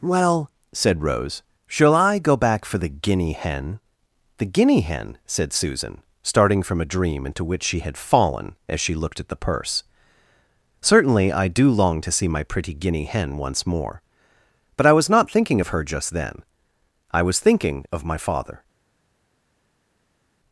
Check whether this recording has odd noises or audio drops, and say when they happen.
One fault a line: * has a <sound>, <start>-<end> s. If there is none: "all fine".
all fine